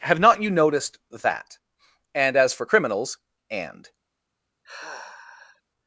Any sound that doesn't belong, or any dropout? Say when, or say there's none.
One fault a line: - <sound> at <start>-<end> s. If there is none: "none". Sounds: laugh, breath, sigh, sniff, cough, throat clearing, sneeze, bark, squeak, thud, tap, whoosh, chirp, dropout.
- sigh at 4.6-5.6 s